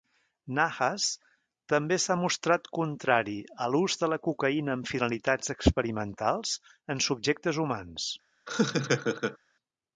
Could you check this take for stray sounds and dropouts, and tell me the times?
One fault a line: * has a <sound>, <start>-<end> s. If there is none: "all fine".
* has a laugh, 8.5-9.4 s